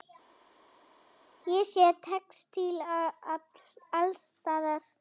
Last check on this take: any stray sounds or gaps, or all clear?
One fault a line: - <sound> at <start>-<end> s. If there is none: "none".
none